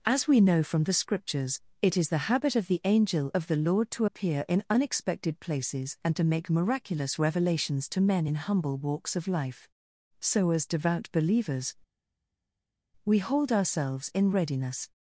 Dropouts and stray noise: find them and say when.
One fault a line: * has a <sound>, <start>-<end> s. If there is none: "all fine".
all fine